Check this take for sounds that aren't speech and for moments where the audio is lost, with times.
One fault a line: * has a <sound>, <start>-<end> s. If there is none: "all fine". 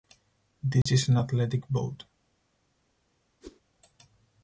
* has a dropout, 0.8-0.9 s
* has a whoosh, 3.4-3.6 s